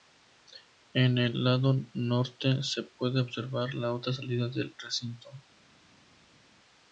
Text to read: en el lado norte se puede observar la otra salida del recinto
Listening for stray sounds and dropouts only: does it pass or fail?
pass